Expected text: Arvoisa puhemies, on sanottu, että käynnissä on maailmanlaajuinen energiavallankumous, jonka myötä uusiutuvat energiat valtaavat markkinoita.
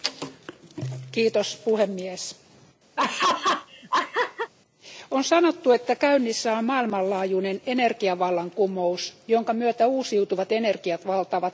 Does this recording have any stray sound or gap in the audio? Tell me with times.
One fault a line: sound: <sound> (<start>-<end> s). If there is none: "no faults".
sound: laugh (3.0-4.5 s)